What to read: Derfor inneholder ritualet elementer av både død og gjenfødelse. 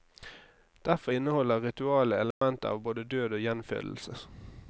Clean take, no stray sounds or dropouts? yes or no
no